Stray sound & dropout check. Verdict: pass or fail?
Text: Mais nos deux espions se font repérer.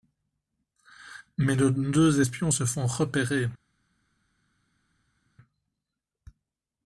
pass